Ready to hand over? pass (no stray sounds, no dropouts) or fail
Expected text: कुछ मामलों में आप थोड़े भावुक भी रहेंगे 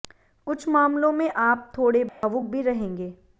fail